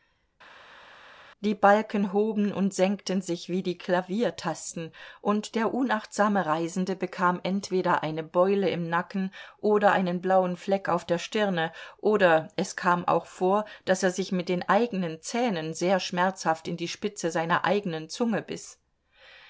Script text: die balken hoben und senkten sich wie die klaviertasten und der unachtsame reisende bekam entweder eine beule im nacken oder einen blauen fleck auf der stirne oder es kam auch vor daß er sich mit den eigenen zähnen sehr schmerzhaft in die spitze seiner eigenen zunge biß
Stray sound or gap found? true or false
false